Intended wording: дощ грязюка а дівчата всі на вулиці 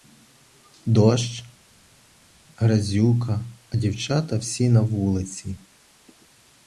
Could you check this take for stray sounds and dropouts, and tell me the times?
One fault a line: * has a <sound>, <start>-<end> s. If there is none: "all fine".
all fine